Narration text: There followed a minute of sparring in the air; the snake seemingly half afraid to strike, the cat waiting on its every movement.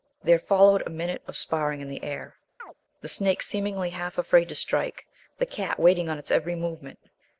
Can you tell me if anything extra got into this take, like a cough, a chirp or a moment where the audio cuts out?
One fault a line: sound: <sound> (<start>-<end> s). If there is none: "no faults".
sound: chirp (2.6-2.7 s)